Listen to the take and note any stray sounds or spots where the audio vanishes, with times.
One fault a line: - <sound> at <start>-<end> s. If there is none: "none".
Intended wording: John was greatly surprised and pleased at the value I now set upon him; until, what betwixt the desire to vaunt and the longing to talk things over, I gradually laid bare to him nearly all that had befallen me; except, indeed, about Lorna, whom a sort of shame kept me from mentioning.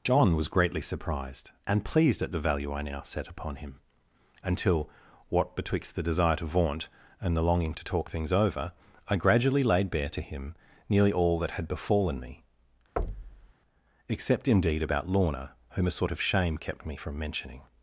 - thud at 13.0-13.5 s